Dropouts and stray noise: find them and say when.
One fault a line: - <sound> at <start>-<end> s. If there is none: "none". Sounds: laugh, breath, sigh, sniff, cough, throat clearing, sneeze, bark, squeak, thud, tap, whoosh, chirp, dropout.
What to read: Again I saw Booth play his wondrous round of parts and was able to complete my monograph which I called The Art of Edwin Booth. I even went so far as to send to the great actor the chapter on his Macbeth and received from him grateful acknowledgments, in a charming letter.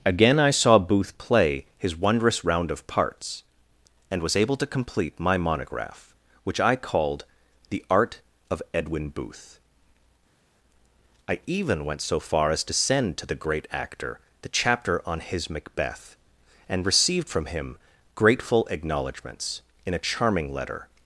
none